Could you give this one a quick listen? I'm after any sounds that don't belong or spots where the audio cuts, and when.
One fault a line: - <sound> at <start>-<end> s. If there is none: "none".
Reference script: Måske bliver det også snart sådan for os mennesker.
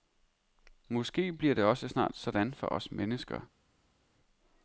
none